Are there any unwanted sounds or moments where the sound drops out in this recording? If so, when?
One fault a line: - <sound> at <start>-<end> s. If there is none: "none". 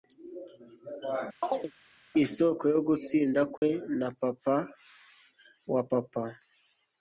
- chirp at 1.4-1.7 s
- dropout at 3.6-3.6 s